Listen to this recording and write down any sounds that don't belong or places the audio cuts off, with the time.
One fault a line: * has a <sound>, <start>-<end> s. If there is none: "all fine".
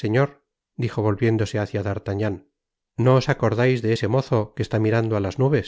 all fine